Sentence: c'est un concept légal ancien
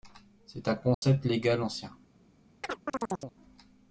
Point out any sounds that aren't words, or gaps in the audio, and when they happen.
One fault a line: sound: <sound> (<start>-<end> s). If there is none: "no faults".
sound: dropout (0.9-1.0 s)
sound: chirp (2.6-3.4 s)